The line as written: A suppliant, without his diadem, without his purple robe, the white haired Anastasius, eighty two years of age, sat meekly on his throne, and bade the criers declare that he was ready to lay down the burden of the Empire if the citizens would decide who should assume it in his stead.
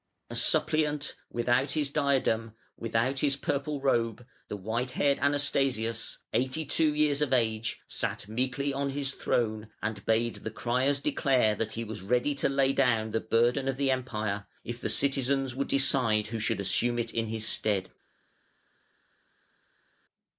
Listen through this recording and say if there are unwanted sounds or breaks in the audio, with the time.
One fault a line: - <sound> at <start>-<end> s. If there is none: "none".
none